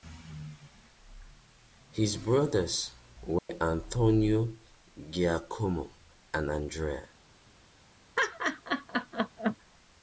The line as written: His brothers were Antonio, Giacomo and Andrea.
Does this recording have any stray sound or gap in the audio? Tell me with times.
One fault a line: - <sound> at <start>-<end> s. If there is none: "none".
- dropout at 3.4-3.5 s
- laugh at 8.2-9.6 s